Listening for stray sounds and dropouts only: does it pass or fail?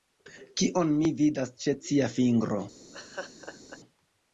fail